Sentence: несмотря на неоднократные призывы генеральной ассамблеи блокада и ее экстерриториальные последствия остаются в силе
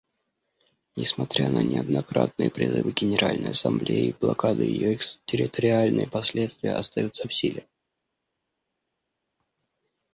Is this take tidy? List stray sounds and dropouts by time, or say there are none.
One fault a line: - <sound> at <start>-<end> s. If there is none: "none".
none